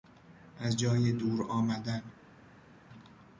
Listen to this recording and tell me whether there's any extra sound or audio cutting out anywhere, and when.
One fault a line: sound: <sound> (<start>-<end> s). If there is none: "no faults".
no faults